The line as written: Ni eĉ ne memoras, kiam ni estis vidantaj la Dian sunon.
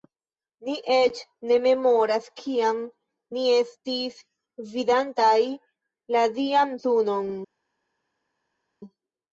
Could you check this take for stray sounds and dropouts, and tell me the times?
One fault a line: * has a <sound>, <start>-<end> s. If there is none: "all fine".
all fine